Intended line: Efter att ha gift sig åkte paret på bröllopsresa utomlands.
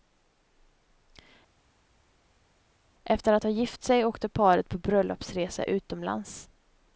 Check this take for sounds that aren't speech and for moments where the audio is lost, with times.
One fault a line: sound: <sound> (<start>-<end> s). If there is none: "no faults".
no faults